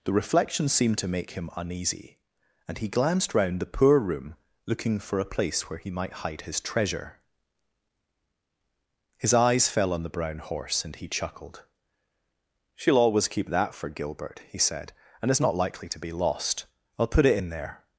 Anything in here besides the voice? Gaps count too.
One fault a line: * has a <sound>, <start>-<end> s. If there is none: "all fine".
all fine